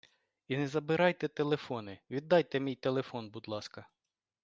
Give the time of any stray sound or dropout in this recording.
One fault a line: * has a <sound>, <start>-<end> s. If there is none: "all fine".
all fine